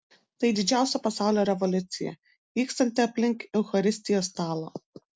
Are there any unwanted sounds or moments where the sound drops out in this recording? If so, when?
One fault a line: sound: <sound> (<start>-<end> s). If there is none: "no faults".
no faults